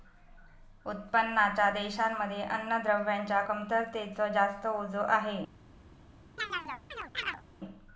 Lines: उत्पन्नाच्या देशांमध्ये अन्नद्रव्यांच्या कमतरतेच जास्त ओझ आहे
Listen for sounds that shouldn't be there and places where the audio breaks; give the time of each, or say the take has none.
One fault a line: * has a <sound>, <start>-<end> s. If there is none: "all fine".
* has a chirp, 6.4-7.4 s